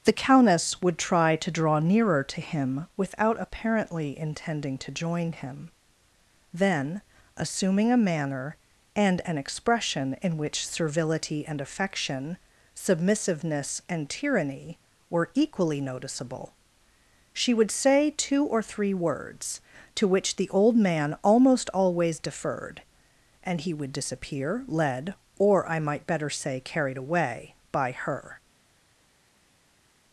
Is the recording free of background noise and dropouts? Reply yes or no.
yes